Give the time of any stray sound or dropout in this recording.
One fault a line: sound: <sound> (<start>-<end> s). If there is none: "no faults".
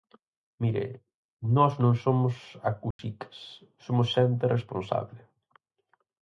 sound: dropout (2.9-3.0 s)